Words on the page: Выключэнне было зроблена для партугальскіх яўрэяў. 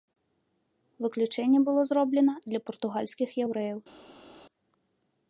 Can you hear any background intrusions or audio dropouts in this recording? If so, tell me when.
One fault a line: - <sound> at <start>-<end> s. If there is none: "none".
none